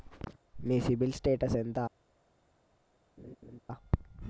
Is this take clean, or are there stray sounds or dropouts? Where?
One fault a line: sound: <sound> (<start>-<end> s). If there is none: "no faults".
sound: laugh (3.2-3.6 s)